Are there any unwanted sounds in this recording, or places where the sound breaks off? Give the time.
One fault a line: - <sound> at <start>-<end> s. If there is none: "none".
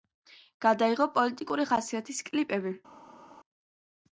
none